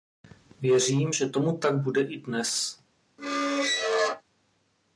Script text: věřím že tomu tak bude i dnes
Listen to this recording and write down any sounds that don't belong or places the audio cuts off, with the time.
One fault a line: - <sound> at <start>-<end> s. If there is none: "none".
- squeak at 3.2-4.2 s